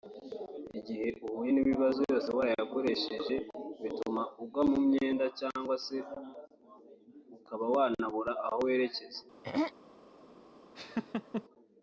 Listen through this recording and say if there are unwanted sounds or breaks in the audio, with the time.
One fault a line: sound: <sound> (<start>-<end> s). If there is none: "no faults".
sound: throat clearing (9.4-9.7 s)
sound: laugh (10.8-11.4 s)